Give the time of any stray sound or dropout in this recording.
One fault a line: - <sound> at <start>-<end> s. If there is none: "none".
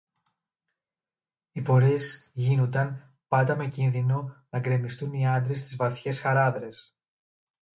none